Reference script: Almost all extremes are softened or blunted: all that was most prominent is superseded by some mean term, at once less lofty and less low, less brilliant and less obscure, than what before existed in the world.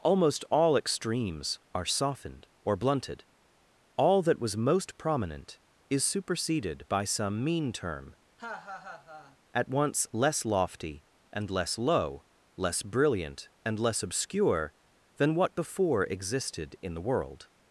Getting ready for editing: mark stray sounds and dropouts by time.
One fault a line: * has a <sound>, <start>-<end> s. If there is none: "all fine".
* has a laugh, 8.4-9.4 s